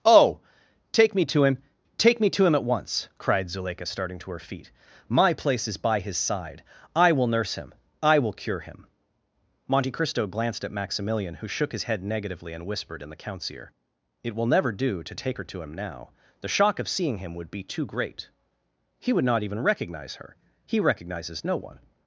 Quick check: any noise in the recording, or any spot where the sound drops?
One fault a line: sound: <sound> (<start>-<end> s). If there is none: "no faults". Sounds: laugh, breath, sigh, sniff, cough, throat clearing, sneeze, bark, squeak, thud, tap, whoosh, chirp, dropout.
no faults